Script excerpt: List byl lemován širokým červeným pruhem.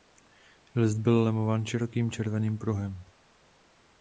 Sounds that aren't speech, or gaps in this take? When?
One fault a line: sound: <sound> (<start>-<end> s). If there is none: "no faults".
no faults